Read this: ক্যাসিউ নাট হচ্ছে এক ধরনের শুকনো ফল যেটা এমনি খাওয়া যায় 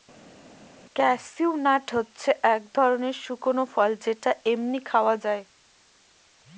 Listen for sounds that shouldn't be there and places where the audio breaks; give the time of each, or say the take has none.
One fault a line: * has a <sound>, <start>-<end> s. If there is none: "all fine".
all fine